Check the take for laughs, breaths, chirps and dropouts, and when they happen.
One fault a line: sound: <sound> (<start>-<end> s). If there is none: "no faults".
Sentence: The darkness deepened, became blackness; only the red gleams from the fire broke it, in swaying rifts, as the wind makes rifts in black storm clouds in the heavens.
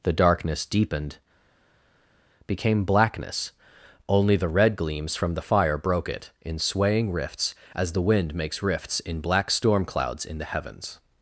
no faults